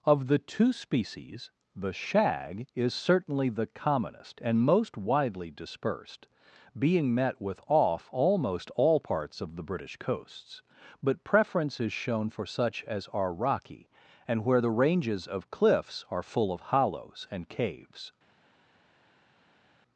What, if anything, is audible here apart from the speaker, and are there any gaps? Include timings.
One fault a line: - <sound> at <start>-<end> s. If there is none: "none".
none